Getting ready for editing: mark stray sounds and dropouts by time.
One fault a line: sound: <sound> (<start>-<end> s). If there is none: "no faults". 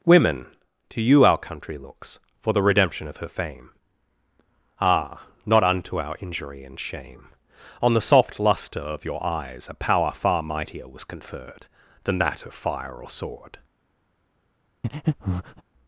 sound: breath (14.8-15.6 s)